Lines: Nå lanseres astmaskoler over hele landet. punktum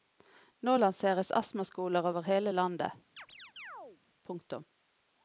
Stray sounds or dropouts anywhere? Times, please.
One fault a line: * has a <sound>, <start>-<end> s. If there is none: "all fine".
* has a chirp, 3.2-4.0 s